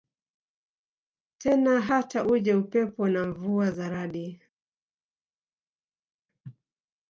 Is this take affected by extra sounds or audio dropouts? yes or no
no